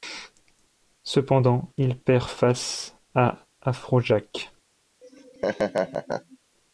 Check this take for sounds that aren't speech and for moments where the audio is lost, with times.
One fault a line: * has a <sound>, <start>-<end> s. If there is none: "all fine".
* has a laugh, 5.0-6.4 s